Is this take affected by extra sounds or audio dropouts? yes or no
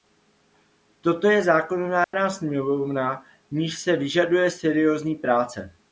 yes